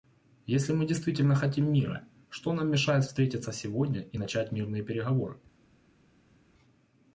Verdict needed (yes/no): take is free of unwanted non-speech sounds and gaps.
yes